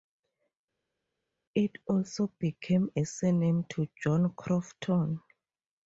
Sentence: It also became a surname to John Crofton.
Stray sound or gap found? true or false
false